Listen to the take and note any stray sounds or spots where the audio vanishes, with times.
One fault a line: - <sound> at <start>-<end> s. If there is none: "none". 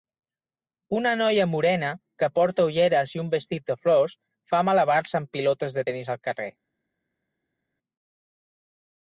none